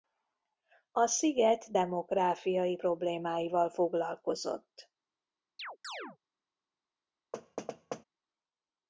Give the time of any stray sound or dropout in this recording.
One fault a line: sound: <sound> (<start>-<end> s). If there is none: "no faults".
sound: chirp (5.6-6.2 s)
sound: thud (7.3-8.0 s)